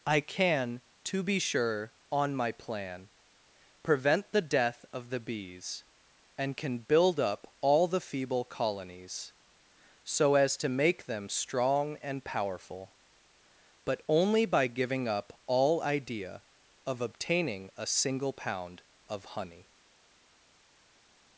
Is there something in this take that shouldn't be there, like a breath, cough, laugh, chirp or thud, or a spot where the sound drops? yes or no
no